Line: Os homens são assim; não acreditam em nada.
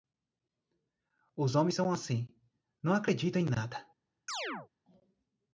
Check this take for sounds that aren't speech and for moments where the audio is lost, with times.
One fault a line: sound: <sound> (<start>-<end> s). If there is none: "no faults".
sound: chirp (4.3-4.7 s)